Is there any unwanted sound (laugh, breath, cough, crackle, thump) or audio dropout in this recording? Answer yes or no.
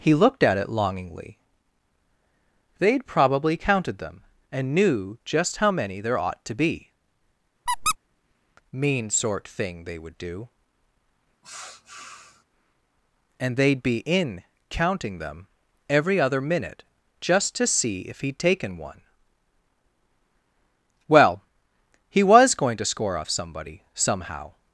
yes